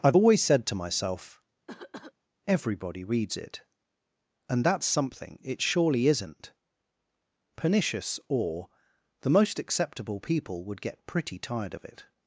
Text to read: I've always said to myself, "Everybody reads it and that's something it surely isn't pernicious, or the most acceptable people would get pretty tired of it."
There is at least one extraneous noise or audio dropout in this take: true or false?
true